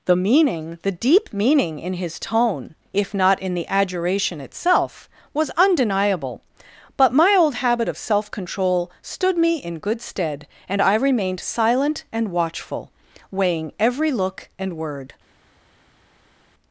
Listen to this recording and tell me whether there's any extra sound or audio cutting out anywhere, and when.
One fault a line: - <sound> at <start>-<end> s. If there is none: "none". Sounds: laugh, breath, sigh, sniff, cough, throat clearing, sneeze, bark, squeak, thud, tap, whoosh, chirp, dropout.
none